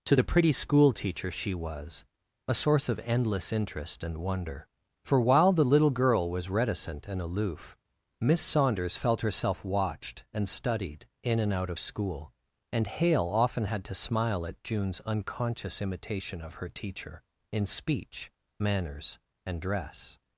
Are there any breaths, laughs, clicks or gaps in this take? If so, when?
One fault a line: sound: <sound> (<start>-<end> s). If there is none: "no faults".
no faults